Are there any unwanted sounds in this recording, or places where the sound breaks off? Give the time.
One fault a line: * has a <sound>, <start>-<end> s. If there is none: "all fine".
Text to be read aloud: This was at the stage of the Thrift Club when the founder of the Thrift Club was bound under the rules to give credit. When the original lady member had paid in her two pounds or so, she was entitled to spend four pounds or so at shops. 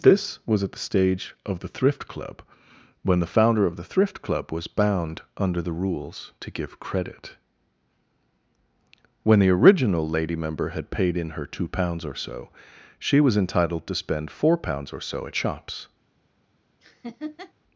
* has a laugh, 16.8-17.5 s